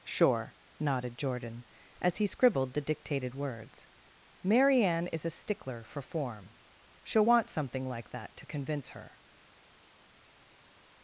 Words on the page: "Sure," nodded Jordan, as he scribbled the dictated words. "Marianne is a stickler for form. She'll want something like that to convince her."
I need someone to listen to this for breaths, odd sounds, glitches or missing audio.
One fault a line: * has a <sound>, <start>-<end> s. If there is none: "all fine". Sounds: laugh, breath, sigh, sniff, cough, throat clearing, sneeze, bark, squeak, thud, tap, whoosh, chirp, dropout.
all fine